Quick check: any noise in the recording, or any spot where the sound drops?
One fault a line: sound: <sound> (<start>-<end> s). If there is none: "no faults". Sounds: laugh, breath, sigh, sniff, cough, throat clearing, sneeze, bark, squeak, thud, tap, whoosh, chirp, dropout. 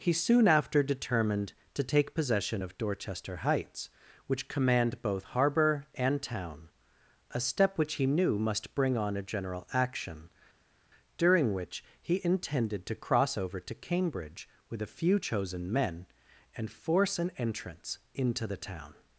no faults